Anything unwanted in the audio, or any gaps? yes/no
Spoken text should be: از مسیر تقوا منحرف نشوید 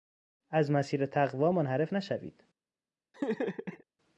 yes